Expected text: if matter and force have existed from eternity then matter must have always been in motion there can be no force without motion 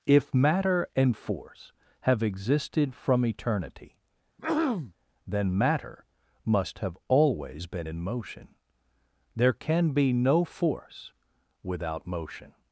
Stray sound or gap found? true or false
true